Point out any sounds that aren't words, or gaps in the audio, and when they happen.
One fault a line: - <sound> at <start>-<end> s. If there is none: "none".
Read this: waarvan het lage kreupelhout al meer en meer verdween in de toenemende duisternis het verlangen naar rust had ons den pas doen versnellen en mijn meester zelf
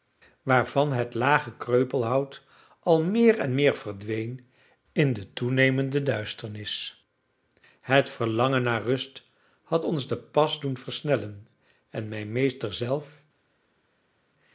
none